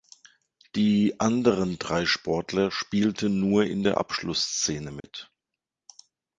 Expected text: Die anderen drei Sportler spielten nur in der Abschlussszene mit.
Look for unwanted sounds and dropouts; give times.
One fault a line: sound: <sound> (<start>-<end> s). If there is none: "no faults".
sound: dropout (5.0-5.0 s)